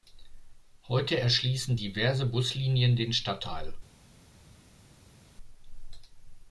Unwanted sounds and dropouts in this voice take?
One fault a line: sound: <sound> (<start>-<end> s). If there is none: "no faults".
no faults